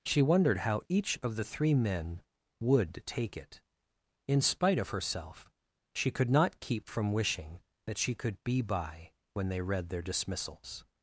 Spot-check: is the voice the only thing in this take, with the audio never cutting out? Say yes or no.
yes